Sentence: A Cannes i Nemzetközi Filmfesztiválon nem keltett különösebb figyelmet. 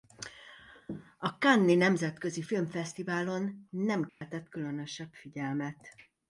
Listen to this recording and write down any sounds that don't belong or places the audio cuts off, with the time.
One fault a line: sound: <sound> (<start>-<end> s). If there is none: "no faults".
sound: dropout (4.1-4.2 s)